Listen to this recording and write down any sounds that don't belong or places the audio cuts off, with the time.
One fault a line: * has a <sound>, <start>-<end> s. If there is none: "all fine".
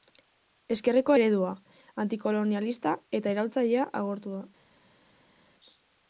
all fine